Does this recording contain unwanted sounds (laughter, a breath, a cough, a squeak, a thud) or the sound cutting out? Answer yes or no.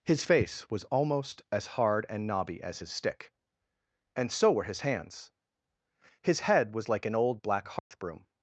yes